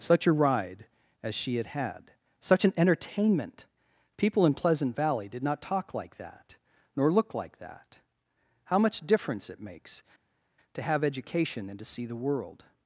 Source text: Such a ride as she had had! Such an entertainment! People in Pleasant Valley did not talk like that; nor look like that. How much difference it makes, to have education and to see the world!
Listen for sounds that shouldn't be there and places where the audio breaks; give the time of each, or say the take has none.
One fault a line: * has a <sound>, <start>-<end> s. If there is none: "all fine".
all fine